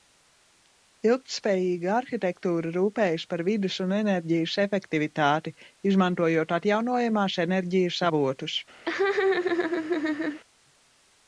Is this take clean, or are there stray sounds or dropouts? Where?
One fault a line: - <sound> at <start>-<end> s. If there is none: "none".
- laugh at 8.9-10.4 s